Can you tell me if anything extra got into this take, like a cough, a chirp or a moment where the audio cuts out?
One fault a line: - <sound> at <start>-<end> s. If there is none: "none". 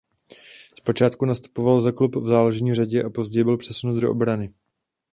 none